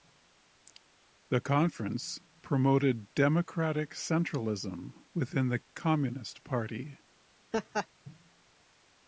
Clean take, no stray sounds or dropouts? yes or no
no